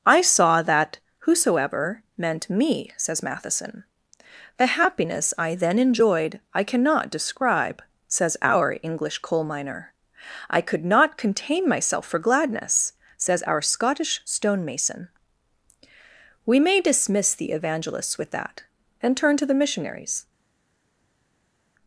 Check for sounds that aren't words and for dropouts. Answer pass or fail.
pass